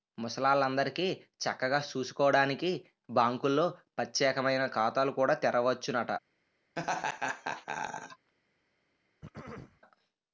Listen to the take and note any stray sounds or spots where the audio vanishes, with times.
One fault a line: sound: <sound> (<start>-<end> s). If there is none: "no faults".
sound: laugh (6.8-8.3 s)
sound: throat clearing (9.2-9.8 s)